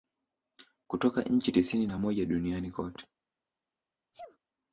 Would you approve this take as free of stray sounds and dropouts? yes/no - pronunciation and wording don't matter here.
no